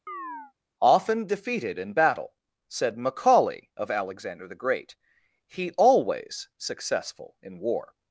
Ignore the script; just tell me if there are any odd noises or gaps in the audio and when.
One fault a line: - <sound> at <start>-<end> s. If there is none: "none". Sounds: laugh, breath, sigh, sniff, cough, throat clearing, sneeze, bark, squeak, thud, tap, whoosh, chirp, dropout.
- chirp at 0.1-0.5 s